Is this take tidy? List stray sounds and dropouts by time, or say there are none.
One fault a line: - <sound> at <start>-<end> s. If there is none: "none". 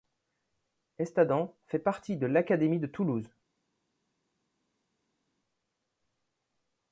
none